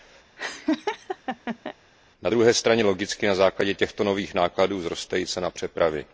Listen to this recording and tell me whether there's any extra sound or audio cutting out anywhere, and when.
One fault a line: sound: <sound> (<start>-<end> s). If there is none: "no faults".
sound: laugh (0.4-1.7 s)